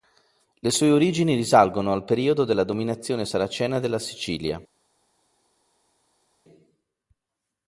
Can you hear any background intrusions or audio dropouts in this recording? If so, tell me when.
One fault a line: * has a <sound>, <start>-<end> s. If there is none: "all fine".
all fine